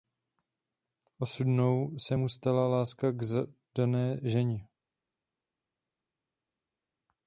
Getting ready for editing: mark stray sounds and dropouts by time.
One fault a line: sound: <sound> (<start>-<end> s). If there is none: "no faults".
no faults